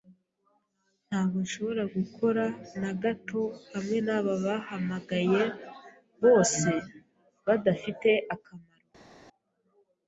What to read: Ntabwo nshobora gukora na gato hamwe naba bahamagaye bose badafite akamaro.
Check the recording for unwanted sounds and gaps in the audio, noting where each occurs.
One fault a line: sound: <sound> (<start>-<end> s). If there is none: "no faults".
no faults